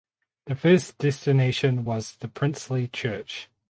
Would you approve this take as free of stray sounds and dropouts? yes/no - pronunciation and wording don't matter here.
yes